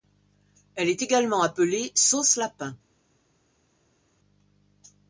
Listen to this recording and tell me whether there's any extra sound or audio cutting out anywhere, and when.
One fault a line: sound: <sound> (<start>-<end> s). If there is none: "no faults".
no faults